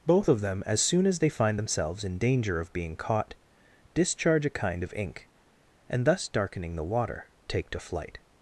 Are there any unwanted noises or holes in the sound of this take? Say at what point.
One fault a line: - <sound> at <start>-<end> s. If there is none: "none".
none